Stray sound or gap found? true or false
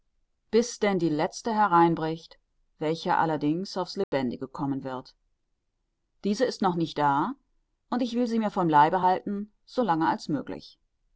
true